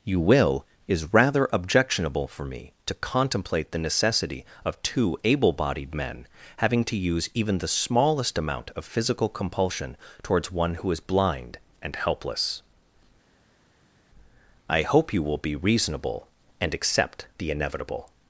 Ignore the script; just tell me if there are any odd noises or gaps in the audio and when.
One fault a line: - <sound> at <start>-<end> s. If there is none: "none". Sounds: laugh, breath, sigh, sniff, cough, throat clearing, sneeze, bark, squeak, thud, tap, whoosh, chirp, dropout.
none